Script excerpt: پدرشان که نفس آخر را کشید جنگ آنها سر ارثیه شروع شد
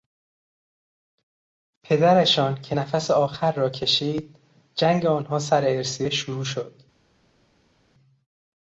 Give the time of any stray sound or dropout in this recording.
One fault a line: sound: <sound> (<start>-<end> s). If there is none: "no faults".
no faults